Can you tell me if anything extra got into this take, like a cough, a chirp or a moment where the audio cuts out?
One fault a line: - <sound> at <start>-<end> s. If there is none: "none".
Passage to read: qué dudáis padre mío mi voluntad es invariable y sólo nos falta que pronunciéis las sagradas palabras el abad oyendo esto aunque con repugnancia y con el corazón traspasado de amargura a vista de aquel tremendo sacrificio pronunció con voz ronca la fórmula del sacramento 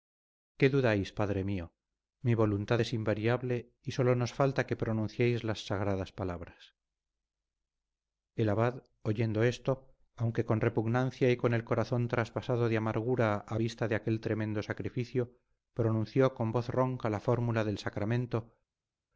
none